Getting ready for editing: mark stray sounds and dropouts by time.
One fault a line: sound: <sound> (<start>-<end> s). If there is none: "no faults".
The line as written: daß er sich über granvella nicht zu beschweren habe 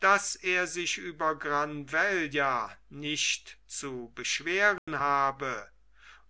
sound: dropout (4.8-4.9 s)